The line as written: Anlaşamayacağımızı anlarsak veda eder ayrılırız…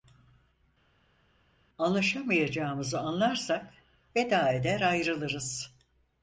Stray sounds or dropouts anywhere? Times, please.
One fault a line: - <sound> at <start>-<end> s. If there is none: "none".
none